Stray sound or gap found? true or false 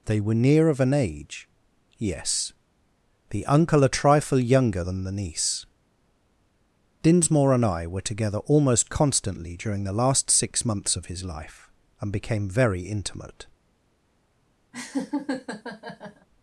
true